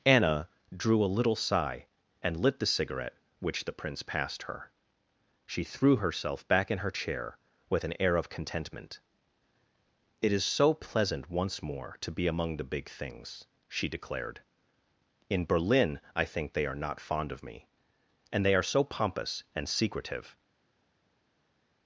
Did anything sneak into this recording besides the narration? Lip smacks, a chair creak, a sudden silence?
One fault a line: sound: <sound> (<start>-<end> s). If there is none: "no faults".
no faults